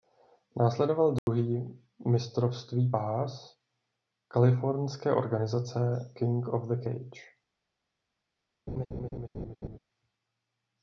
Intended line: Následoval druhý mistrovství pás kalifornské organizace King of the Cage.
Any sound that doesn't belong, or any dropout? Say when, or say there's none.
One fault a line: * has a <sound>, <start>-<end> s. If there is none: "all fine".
* has a dropout, 1.2-1.3 s
* has a laugh, 8.7-9.8 s